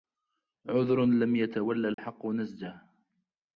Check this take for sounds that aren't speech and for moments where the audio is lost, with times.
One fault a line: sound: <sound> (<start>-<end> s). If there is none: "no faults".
sound: dropout (1.9-2.0 s)